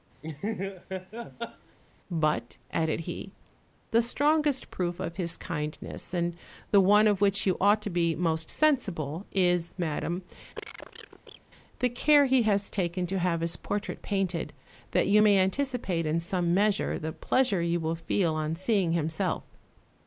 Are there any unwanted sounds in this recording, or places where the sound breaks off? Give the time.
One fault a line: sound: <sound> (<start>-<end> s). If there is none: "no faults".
sound: laugh (0.2-1.8 s)
sound: cough (10.6-11.4 s)